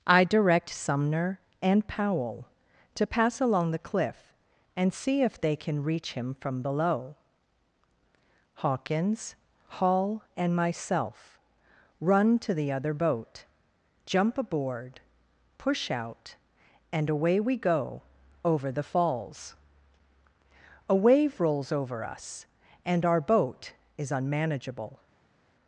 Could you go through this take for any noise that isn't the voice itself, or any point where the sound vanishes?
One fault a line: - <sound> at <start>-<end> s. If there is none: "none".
none